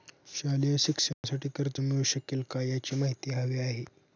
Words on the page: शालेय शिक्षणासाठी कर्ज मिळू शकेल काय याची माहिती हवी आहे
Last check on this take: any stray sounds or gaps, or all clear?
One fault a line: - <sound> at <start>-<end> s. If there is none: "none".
- dropout at 1.1-1.2 s